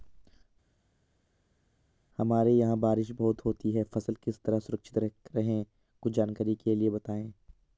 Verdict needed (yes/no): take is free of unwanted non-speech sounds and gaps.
yes